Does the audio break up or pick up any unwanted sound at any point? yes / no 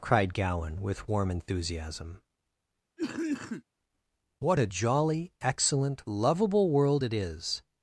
yes